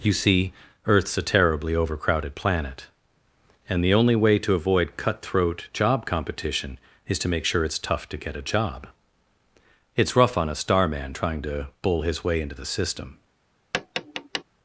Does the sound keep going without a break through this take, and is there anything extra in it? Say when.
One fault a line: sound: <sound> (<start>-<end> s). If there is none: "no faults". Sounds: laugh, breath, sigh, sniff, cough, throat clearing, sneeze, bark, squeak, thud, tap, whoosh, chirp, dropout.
sound: tap (13.7-14.4 s)